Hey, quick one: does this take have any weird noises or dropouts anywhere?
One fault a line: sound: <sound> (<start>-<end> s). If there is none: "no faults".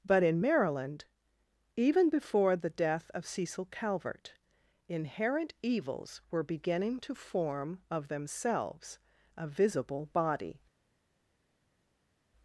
no faults